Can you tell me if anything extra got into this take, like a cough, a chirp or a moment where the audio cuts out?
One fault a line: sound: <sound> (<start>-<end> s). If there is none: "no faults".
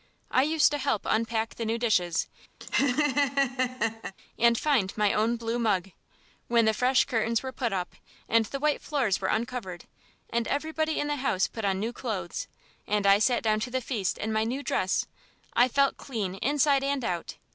sound: laugh (2.6-4.1 s)